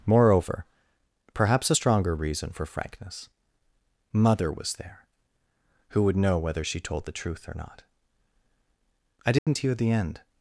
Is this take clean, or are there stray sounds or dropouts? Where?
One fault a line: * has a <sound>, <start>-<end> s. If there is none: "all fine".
* has a dropout, 9.4-9.5 s